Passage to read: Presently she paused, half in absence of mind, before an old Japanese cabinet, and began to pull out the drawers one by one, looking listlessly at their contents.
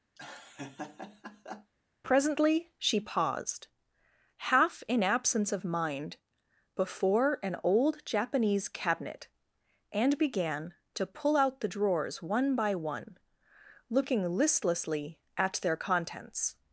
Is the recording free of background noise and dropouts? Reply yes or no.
no